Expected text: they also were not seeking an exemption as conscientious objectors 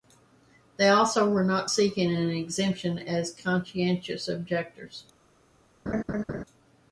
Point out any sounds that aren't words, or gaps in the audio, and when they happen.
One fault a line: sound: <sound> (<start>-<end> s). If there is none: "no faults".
sound: laugh (5.9-6.4 s)